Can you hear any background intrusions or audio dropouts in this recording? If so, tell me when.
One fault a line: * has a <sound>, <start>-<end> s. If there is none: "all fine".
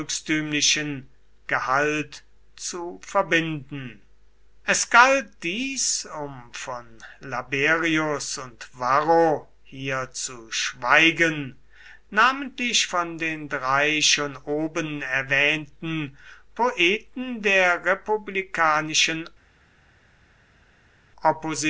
all fine